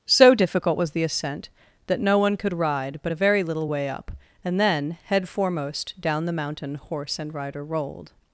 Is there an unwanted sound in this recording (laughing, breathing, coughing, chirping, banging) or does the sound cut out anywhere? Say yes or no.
no